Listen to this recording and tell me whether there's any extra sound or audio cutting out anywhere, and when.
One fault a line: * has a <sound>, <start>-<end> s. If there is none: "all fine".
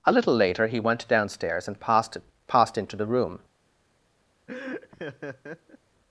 * has a laugh, 4.5-5.8 s